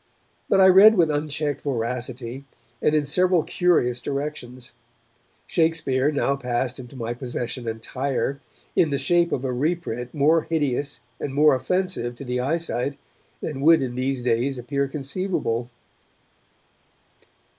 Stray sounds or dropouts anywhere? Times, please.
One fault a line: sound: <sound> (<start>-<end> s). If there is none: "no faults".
no faults